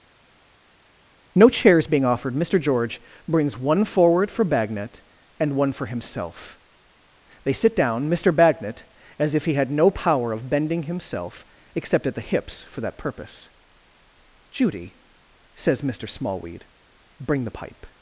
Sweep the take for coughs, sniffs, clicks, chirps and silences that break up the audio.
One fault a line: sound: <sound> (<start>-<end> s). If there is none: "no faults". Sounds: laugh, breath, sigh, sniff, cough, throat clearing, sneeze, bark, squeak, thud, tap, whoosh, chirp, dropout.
no faults